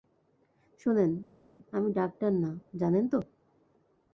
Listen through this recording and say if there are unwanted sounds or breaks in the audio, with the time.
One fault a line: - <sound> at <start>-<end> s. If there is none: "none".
none